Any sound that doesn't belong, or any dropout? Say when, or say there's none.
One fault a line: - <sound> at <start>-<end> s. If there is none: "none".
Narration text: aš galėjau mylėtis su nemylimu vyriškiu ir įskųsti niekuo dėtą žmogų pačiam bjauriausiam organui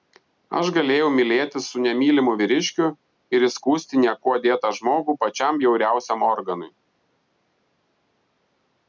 none